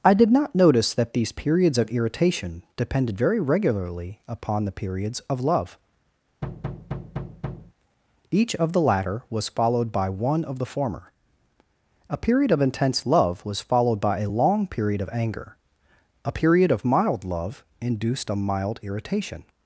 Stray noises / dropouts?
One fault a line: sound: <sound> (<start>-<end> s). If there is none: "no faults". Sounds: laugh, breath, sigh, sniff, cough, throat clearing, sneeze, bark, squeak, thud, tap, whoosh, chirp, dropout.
sound: thud (6.4-7.7 s)